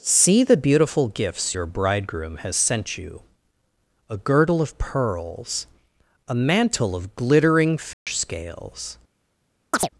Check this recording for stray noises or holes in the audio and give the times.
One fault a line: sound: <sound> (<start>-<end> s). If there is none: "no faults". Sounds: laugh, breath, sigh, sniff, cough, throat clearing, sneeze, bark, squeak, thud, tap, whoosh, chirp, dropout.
sound: dropout (7.9-8.1 s)
sound: chirp (9.7-9.9 s)